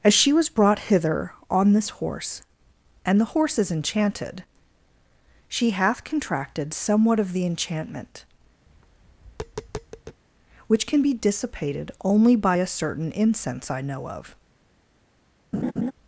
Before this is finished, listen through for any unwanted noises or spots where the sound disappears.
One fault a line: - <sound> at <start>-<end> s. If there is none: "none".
- tap at 8.7-10.2 s
- laugh at 15.5-15.9 s